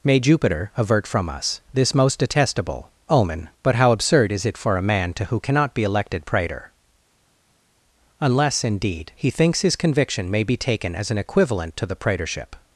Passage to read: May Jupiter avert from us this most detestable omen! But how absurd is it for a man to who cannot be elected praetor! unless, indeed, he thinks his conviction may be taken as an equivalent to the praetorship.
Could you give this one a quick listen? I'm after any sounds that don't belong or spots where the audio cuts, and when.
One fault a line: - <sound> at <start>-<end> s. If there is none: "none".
none